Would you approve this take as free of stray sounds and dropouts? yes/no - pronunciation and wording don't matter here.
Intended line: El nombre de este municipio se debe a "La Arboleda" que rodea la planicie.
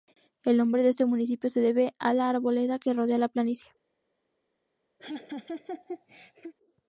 no